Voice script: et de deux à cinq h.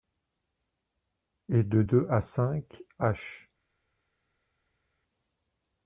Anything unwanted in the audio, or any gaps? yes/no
no